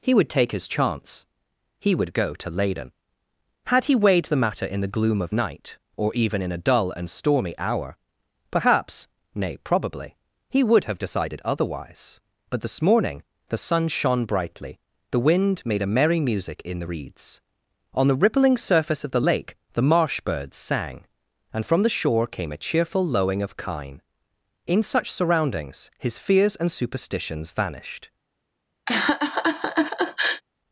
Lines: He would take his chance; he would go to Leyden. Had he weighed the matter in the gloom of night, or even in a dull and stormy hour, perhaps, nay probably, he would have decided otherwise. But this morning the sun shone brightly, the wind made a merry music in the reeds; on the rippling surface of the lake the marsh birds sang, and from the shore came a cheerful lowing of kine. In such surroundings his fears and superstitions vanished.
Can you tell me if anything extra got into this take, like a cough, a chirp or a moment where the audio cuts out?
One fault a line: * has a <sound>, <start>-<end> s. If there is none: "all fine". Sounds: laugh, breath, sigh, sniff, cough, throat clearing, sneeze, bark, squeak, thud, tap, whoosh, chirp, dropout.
* has a laugh, 28.9-30.4 s